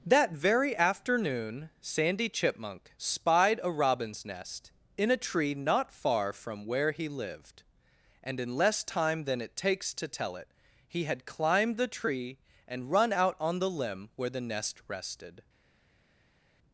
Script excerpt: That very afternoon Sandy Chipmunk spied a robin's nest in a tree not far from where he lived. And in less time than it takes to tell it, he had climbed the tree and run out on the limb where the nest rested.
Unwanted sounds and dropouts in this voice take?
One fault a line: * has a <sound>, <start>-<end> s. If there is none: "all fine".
all fine